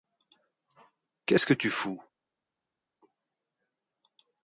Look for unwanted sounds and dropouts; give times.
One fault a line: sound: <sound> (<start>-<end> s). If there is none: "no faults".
no faults